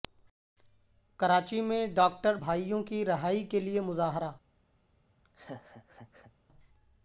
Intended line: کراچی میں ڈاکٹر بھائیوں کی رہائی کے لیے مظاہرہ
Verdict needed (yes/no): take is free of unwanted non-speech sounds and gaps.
no